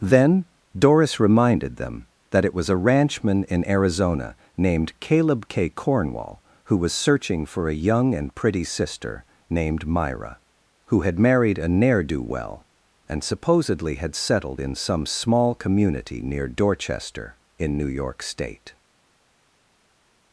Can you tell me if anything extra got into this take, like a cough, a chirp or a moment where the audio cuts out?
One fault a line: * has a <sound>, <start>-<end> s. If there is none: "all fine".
all fine